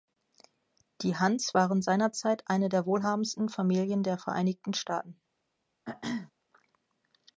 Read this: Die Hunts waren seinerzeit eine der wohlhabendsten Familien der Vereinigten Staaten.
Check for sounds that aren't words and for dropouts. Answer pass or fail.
fail